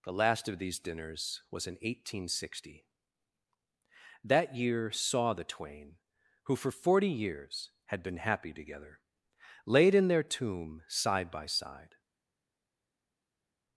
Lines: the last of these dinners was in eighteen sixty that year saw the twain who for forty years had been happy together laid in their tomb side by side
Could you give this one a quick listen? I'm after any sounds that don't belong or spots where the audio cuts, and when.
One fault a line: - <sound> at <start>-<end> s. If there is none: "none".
none